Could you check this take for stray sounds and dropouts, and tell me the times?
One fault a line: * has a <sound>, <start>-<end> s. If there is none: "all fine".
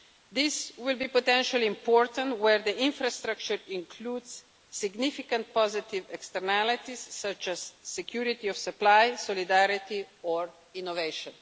all fine